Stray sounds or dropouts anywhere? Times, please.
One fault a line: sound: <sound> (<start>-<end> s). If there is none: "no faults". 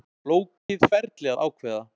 sound: dropout (0.6-0.7 s)